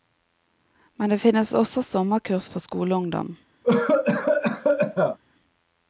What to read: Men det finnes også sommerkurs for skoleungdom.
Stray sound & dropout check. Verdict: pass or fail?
fail